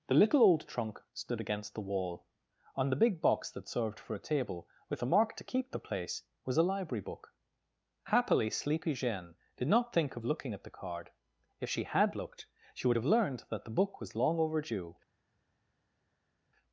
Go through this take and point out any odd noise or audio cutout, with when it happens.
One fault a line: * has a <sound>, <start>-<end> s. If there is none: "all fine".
all fine